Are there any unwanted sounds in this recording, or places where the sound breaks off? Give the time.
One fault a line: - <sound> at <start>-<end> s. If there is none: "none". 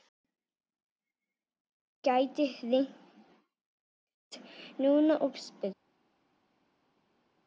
none